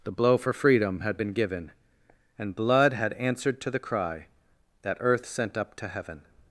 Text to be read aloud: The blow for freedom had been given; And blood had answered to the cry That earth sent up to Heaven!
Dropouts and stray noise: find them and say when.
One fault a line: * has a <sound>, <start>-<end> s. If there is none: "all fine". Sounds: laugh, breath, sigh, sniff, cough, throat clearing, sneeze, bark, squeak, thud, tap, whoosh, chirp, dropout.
all fine